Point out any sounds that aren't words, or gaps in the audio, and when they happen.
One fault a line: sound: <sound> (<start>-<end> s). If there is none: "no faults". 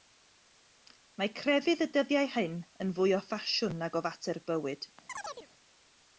sound: chirp (5.1-5.5 s)